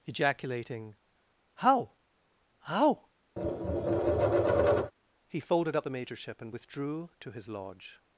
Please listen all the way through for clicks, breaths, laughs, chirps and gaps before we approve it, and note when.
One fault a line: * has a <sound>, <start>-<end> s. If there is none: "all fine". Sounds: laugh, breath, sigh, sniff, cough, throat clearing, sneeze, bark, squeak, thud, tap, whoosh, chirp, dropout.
* has a tap, 3.4-4.9 s